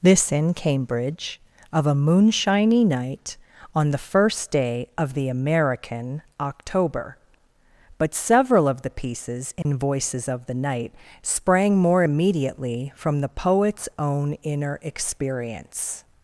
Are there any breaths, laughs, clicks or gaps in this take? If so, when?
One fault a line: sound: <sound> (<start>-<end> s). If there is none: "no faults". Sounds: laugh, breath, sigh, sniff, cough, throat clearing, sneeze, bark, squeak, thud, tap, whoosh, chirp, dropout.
sound: dropout (9.6-9.7 s)